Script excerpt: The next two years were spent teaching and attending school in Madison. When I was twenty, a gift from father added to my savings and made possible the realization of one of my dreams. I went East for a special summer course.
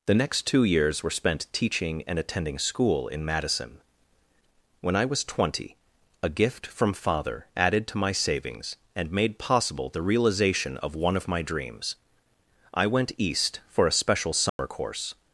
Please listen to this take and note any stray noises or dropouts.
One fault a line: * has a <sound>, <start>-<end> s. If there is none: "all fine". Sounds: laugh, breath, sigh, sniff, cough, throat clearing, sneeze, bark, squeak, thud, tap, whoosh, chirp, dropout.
* has a dropout, 14.5-14.6 s